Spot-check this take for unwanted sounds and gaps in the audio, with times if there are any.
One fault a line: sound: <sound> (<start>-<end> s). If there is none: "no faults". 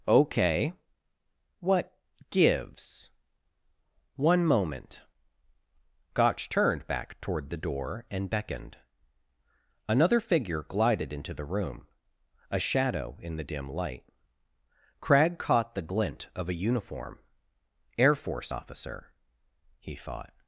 no faults